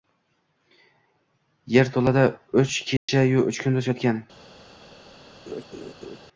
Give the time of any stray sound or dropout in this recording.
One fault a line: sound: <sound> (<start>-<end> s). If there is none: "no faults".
sound: dropout (3.0-3.1 s)
sound: laugh (5.5-6.2 s)